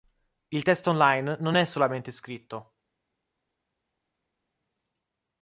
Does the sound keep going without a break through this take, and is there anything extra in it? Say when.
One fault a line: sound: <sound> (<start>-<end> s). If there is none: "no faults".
no faults